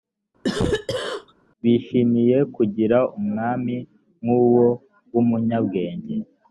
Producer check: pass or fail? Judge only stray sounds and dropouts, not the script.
fail